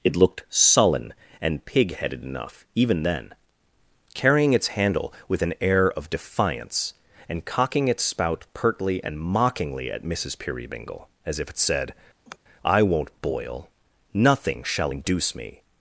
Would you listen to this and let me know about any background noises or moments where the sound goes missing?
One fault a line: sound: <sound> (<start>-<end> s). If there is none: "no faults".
sound: sigh (12.3-12.4 s)